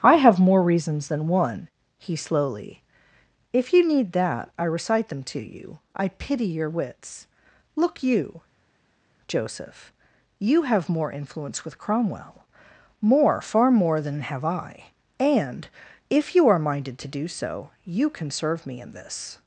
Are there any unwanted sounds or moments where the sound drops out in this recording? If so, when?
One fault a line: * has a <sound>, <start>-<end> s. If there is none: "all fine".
all fine